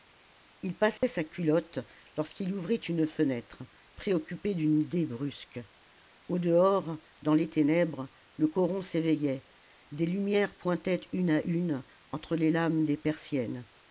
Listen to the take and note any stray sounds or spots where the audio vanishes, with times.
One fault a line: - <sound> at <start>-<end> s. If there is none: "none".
- dropout at 1.0-1.0 s